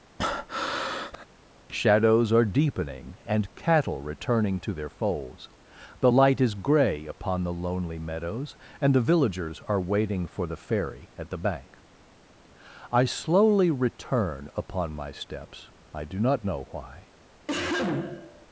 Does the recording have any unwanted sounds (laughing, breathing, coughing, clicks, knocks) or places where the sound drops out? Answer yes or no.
yes